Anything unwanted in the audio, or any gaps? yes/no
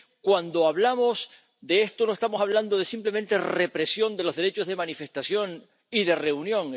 no